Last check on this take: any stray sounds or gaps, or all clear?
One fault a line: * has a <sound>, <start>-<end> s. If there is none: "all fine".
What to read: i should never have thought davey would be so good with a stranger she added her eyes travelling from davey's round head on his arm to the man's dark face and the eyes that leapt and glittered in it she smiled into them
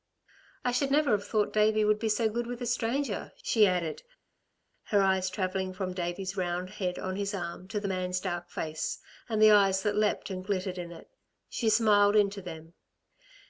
all fine